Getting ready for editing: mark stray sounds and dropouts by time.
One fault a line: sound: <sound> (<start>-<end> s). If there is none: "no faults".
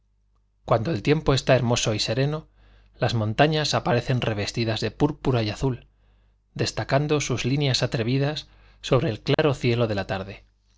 sound: dropout (9.3-9.4 s)